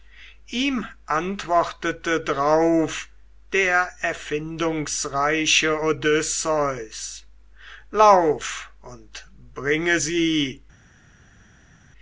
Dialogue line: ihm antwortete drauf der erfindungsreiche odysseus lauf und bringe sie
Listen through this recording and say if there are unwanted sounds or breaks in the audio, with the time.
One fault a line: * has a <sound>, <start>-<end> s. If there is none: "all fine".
all fine